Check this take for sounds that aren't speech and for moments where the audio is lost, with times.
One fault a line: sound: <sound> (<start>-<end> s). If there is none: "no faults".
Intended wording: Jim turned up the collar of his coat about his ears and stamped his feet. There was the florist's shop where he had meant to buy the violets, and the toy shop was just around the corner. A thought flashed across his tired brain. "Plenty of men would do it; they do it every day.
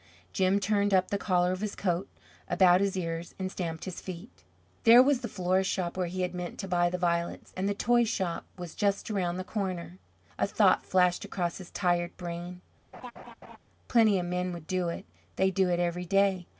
sound: laugh (12.9-13.6 s)